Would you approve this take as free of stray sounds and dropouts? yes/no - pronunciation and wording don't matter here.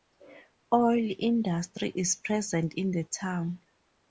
yes